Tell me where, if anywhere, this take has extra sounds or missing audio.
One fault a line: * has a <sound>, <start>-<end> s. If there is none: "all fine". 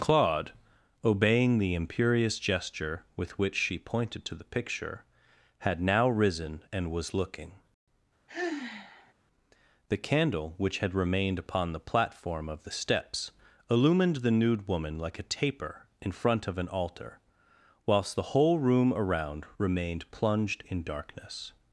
* has a sigh, 8.3-9.1 s